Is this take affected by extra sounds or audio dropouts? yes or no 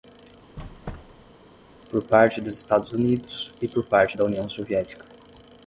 yes